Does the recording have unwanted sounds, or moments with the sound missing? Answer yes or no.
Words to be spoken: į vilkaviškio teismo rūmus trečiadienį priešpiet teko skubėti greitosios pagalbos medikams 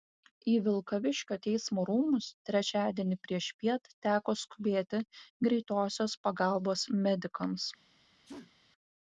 yes